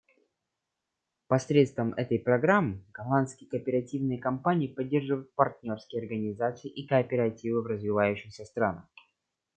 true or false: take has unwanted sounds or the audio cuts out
false